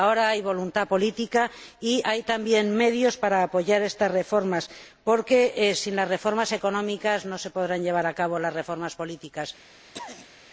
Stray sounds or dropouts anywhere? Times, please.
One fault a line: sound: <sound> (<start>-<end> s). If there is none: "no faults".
sound: throat clearing (9.9-10.3 s)